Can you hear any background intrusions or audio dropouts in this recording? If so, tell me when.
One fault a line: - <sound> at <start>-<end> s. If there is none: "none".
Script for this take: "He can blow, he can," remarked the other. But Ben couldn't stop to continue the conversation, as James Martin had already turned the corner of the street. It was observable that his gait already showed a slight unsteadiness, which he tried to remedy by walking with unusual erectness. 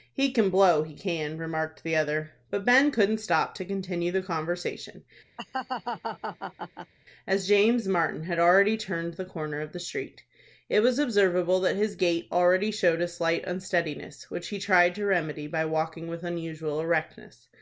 - laugh at 5.4-6.9 s